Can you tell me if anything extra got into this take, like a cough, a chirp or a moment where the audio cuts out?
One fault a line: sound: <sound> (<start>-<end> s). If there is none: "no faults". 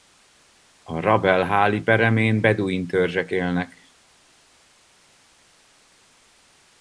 no faults